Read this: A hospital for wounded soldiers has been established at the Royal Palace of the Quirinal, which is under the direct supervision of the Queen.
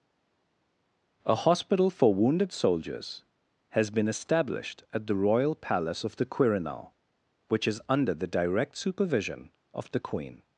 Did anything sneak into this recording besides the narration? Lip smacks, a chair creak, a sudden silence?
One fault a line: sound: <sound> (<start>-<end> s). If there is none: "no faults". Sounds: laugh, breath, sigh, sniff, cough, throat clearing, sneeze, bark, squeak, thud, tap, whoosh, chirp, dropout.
no faults